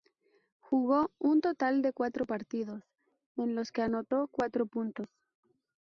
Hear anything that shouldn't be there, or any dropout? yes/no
no